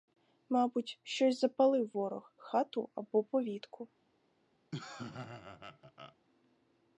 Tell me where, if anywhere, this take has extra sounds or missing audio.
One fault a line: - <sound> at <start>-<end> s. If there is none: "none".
- laugh at 4.7-6.2 s